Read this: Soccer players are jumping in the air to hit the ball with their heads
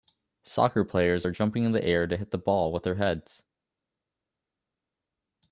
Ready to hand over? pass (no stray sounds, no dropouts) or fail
pass